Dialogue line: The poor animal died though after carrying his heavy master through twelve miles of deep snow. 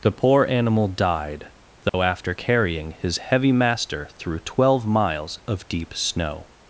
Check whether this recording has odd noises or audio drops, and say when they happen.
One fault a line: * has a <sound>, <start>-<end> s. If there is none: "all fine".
* has a dropout, 1.9-1.9 s